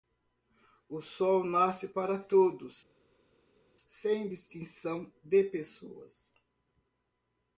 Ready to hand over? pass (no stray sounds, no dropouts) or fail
pass